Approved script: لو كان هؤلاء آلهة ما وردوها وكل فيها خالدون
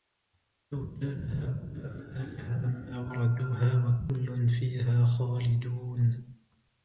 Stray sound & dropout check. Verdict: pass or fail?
pass